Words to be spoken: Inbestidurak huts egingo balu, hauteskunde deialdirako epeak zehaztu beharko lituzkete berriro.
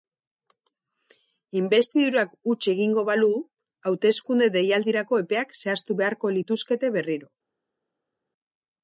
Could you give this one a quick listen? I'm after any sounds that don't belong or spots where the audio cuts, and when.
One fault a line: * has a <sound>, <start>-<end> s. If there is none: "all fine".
all fine